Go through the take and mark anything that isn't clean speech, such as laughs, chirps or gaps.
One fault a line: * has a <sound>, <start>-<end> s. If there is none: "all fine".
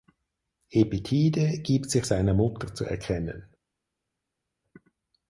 all fine